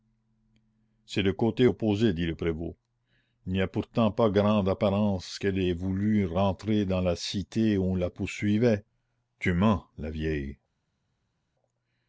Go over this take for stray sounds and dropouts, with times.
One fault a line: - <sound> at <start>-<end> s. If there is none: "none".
none